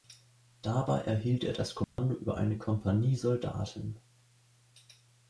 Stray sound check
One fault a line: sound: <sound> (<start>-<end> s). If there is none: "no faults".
sound: dropout (1.8-2.0 s)